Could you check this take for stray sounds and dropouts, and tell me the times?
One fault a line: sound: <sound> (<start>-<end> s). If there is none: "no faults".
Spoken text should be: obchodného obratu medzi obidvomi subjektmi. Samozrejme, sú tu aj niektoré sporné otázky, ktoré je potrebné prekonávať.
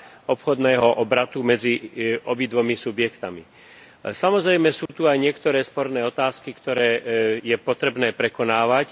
sound: dropout (4.9-4.9 s)